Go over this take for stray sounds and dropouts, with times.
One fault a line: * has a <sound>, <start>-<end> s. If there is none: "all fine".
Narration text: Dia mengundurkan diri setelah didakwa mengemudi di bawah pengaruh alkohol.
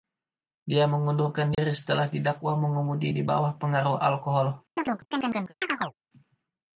* has a dropout, 1.5-1.6 s
* has a chirp, 4.8-5.9 s